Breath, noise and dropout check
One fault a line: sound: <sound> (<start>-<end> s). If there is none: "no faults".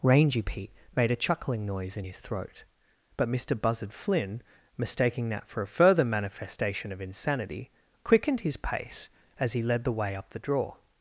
no faults